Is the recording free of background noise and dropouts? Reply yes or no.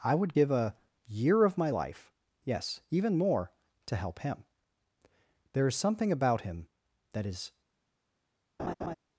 no